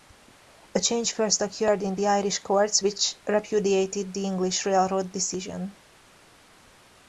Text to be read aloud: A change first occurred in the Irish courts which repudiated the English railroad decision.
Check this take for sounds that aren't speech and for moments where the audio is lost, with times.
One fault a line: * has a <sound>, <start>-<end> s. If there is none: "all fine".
all fine